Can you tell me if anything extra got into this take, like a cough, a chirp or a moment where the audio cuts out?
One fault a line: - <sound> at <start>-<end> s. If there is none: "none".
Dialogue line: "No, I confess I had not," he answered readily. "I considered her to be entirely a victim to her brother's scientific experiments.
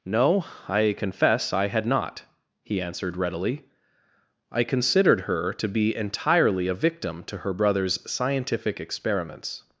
none